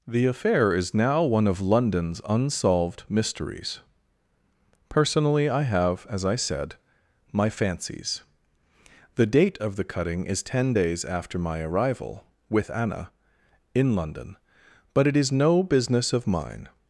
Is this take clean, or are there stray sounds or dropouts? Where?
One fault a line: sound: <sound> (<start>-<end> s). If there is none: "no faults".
no faults